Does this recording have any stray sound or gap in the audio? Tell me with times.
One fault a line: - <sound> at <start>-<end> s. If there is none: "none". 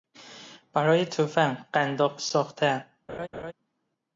- laugh at 3.1-3.5 s